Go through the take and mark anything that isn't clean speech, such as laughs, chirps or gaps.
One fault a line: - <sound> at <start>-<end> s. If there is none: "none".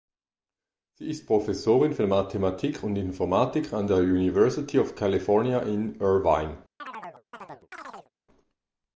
- chirp at 6.8-8.1 s